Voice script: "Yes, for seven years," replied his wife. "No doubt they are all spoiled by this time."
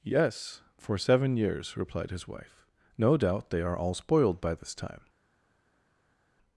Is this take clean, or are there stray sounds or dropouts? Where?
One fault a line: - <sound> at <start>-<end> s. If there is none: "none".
none